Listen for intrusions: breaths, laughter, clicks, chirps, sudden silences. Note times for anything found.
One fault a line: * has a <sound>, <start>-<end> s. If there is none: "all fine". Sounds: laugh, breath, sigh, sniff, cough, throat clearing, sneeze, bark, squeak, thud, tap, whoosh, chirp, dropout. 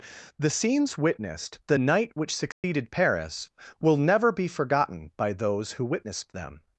* has a dropout, 2.5-2.6 s